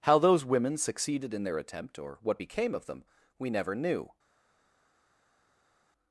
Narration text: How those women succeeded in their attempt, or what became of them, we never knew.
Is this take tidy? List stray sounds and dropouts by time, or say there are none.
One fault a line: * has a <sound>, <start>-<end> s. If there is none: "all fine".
all fine